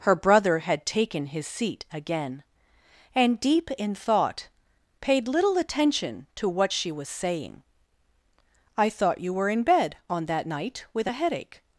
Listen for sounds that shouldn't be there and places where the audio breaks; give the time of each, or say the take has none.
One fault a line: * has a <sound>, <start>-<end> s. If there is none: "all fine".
all fine